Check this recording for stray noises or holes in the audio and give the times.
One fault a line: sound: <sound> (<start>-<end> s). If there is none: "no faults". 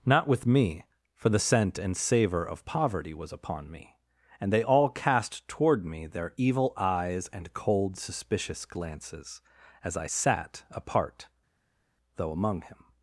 no faults